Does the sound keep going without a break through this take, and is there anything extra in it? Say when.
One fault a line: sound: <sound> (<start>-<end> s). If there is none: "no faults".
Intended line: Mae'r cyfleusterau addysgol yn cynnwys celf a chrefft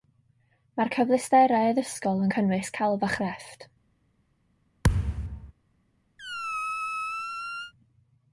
sound: thud (4.8-5.5 s)
sound: squeak (6.2-7.7 s)